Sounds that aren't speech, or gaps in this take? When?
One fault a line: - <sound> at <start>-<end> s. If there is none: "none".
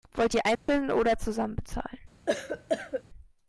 - dropout at 0.6-0.7 s
- cough at 2.3-3.0 s